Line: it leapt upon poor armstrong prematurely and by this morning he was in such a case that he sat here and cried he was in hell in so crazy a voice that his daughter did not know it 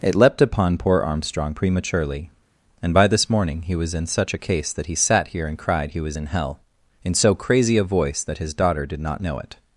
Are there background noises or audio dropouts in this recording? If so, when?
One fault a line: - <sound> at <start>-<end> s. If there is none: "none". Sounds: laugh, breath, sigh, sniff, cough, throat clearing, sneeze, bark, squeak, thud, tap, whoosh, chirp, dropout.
none